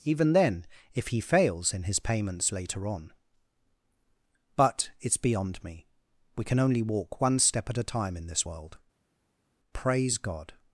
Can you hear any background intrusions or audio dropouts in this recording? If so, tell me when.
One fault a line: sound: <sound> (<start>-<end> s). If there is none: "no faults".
no faults